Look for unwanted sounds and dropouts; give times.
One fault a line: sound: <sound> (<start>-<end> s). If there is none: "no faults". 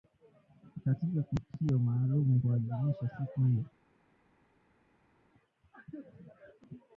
no faults